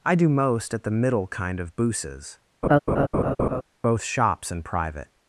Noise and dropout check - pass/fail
fail